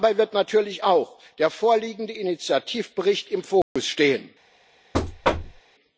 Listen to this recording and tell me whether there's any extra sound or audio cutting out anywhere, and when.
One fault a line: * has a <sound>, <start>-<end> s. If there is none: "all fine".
* has a dropout, 3.6-3.8 s
* has a thud, 4.9-5.6 s